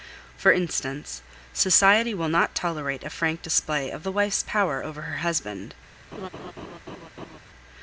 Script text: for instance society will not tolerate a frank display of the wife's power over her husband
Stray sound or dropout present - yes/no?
yes